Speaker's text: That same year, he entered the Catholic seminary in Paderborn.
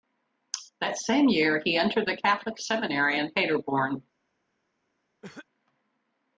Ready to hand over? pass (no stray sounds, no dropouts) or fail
fail